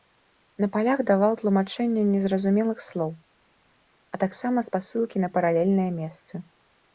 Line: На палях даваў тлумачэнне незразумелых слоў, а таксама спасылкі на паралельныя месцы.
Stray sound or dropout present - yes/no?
no